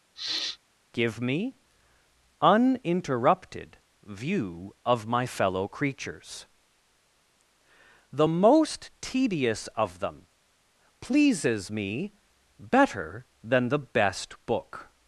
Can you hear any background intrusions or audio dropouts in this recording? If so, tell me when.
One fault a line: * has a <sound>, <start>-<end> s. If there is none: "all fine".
* has a sniff, 0.2-0.6 s